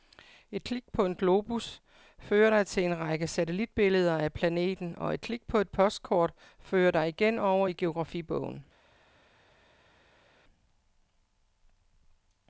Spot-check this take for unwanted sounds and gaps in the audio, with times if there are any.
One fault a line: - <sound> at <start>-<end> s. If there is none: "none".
none